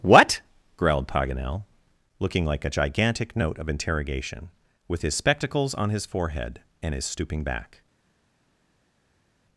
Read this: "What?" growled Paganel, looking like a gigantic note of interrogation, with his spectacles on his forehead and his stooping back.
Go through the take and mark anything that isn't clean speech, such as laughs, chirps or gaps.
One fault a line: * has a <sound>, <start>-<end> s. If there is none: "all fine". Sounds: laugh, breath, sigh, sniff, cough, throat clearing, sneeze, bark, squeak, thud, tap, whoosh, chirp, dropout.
all fine